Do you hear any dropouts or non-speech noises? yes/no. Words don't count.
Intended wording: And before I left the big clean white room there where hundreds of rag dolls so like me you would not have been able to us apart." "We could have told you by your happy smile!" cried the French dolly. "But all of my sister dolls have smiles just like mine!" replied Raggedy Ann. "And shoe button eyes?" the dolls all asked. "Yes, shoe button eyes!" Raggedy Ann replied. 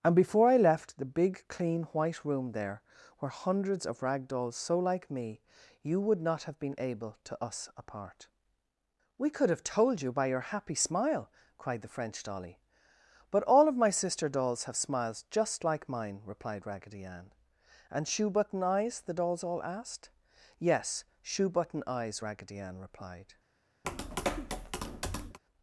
yes